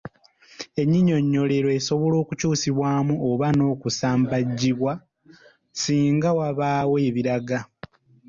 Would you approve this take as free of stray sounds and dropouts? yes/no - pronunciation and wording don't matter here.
yes